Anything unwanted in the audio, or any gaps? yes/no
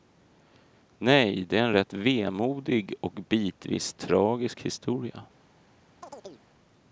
yes